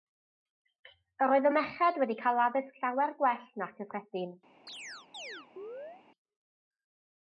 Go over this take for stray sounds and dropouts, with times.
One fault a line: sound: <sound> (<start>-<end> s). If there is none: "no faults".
sound: chirp (4.7-6.0 s)